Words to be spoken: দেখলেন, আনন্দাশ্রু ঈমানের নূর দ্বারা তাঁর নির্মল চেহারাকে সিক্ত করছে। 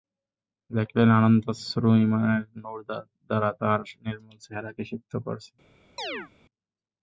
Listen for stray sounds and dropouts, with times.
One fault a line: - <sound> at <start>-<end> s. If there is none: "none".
- chirp at 6.0-6.3 s